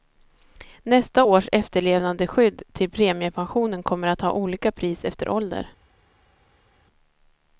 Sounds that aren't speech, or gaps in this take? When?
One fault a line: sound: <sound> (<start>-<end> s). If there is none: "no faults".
no faults